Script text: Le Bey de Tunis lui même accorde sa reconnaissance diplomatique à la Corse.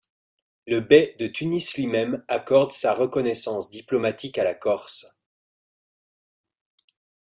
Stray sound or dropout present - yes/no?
no